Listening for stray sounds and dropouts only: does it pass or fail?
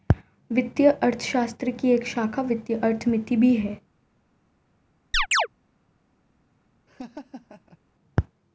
fail